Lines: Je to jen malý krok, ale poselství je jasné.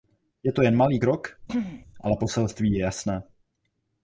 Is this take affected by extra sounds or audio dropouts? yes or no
yes